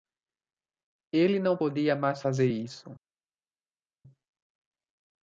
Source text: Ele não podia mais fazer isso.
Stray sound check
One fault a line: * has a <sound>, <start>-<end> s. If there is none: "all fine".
all fine